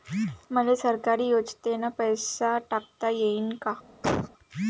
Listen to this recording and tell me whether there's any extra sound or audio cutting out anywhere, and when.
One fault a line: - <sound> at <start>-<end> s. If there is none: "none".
- cough at 4.0-4.3 s